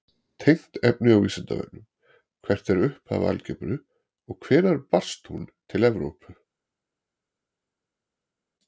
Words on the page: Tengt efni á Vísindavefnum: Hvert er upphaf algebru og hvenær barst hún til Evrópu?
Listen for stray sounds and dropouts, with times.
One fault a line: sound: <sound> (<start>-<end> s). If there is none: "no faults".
no faults